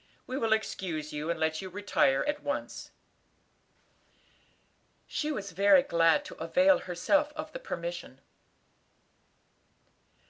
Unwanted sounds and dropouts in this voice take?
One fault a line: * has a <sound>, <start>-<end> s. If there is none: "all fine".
all fine